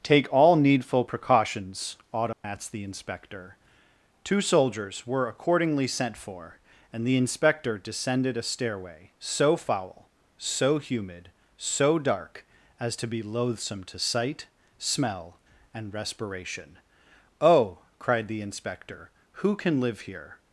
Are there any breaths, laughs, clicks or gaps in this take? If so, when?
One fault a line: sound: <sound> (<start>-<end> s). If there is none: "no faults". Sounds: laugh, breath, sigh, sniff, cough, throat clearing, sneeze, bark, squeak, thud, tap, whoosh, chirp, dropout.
sound: dropout (2.3-2.4 s)